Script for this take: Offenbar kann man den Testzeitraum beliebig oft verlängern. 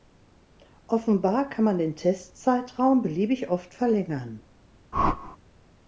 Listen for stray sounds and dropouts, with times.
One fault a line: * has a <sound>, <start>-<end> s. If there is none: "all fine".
* has a whoosh, 4.9-5.4 s